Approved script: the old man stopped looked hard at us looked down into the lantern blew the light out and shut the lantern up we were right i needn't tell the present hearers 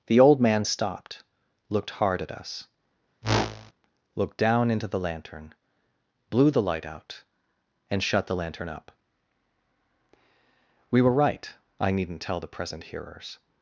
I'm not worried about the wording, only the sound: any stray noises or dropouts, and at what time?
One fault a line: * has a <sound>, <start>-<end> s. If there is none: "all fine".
* has a whoosh, 3.2-3.7 s